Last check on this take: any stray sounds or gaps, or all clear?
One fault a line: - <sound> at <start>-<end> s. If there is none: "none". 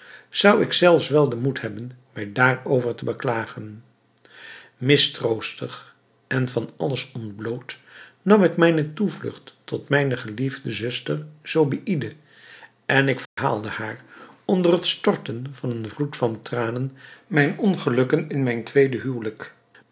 - dropout at 13.3-13.4 s